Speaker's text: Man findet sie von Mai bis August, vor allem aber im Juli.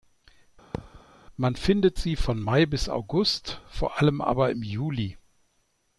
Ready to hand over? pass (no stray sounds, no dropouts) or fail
fail